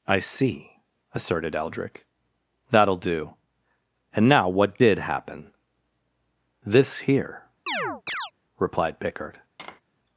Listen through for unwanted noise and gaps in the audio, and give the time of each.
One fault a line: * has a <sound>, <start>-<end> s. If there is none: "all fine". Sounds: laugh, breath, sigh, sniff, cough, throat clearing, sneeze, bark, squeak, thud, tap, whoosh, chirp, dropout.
* has a chirp, 7.7-8.3 s
* has a tap, 9.6-9.8 s